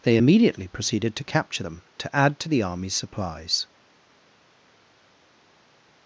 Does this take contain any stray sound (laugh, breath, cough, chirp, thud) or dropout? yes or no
no